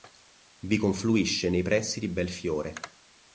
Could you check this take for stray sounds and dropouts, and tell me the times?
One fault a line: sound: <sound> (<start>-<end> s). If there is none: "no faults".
no faults